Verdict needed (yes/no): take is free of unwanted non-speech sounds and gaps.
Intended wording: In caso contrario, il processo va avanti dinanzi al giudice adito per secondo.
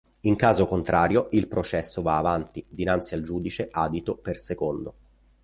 yes